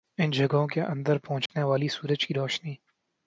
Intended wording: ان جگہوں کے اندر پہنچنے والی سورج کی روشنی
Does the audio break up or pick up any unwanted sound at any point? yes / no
yes